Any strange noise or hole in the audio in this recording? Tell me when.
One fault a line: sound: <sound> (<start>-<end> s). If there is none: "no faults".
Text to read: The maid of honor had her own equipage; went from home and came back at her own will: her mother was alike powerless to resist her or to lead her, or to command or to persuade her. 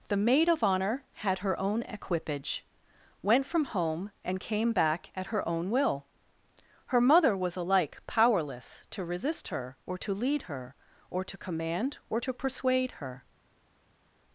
no faults